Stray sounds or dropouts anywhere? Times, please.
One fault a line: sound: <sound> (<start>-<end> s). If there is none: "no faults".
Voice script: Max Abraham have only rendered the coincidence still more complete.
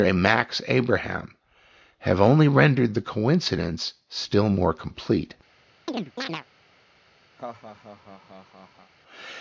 sound: chirp (5.9-6.5 s)
sound: laugh (7.4-8.9 s)